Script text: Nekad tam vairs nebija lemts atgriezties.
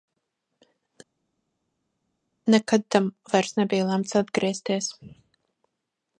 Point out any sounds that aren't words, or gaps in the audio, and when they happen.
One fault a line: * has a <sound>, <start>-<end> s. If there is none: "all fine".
all fine